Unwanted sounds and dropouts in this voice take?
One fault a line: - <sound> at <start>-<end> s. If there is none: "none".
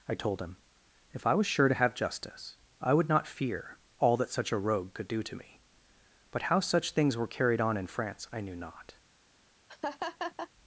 - laugh at 9.7-10.5 s